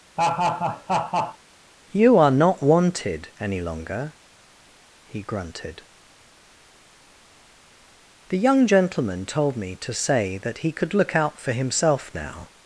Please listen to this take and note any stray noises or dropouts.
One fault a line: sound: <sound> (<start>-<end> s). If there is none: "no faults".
sound: laugh (0.2-1.4 s)